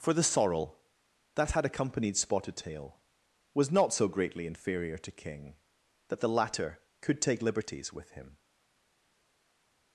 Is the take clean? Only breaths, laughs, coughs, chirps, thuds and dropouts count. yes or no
yes